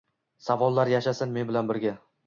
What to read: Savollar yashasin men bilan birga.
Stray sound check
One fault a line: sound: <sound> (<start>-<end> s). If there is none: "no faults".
no faults